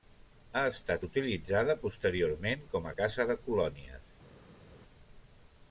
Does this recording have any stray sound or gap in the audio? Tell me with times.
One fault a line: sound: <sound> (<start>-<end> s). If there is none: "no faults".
no faults